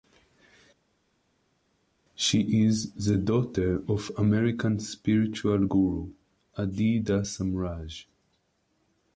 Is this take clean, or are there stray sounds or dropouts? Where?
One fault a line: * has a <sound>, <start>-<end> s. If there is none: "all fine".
all fine